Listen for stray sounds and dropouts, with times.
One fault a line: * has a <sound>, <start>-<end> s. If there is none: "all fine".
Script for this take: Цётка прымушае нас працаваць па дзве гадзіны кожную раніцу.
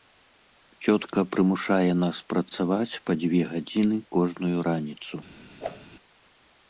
* has a whoosh, 5.6-5.9 s